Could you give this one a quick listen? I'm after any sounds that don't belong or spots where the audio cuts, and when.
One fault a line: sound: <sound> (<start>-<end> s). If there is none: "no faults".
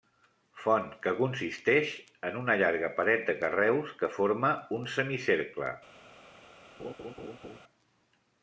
sound: laugh (6.8-7.6 s)